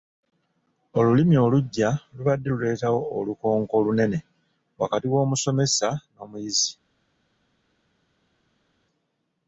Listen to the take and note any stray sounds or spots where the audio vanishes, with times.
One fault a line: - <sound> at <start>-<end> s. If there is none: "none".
none